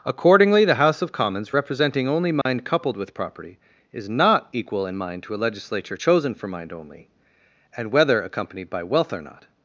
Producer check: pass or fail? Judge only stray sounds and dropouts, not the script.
fail